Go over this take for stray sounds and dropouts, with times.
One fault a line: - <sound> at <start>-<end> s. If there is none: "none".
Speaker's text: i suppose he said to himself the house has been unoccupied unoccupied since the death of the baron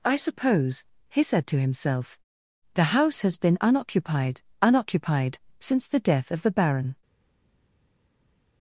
none